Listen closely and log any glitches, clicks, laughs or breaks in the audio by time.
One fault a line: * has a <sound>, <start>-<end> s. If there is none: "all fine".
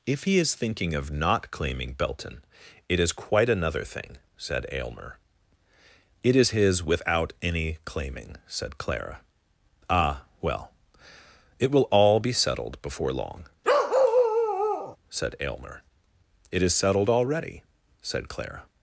* has a bark, 13.6-15.0 s